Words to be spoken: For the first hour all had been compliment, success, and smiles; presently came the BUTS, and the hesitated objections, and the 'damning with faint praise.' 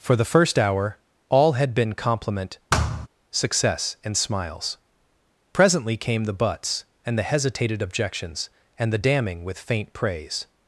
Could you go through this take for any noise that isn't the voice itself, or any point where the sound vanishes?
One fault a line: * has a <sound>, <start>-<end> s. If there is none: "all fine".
* has a thud, 2.7-3.1 s